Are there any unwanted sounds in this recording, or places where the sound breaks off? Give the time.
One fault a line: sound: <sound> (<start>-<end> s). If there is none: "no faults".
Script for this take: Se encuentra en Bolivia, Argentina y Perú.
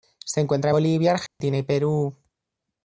sound: dropout (1.3-1.4 s)